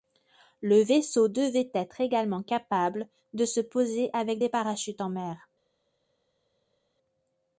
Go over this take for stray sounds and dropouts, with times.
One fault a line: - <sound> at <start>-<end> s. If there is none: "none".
none